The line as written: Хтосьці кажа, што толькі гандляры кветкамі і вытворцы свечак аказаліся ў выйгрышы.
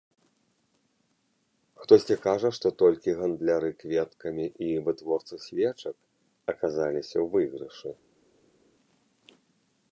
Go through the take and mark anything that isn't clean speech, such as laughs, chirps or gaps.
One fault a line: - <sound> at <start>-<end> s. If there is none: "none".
none